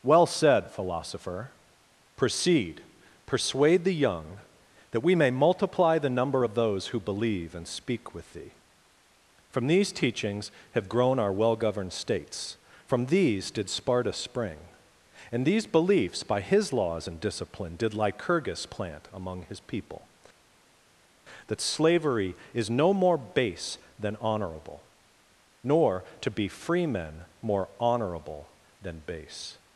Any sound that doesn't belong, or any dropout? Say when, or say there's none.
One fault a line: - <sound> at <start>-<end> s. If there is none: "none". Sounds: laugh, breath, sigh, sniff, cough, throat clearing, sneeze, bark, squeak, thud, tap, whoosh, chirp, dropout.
none